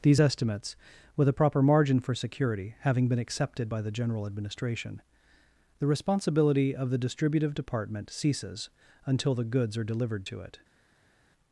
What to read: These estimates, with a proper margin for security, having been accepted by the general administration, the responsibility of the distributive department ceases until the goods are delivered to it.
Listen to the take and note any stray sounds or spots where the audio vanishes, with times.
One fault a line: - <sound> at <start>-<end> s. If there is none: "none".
none